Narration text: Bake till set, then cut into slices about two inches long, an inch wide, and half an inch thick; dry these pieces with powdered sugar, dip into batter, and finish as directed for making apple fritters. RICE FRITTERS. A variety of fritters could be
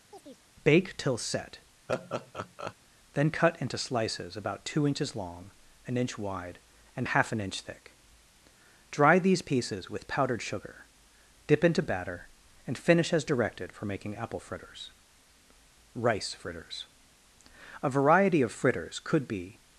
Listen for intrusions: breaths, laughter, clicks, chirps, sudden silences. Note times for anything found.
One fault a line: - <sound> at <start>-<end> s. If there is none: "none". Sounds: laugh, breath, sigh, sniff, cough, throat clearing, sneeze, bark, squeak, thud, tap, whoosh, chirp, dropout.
- chirp at 0.1-0.4 s
- laugh at 1.9-2.7 s